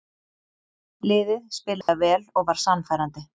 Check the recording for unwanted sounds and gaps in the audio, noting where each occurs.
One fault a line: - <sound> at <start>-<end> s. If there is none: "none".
- dropout at 1.8-1.9 s